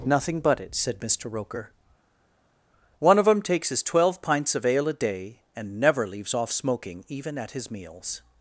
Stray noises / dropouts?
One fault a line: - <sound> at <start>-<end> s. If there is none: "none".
none